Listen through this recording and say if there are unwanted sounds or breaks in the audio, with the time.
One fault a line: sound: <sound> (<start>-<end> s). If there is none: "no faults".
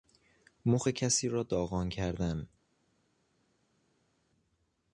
no faults